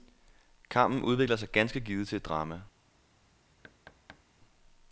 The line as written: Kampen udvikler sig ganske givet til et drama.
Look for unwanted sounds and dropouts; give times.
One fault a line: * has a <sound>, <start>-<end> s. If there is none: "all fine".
* has a thud, 3.6-4.2 s